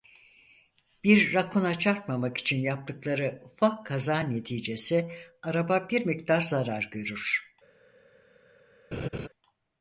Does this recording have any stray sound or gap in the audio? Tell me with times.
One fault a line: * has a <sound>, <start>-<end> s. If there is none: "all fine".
* has a laugh, 8.9-9.3 s